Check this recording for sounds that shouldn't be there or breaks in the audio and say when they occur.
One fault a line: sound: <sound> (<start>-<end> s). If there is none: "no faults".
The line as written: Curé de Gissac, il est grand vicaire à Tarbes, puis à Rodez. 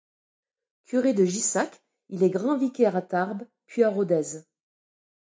no faults